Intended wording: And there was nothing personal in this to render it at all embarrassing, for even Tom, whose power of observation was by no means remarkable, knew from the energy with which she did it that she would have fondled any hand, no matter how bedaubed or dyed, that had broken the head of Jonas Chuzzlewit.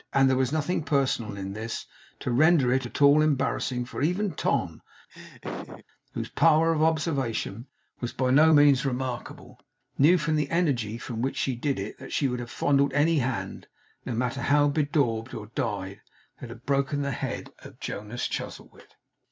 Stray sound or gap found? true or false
true